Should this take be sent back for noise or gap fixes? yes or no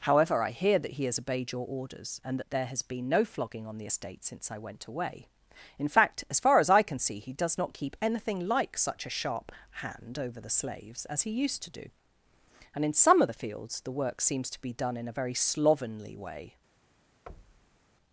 yes